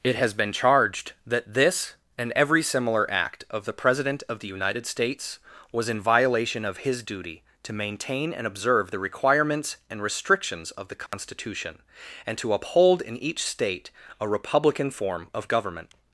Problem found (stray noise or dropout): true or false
true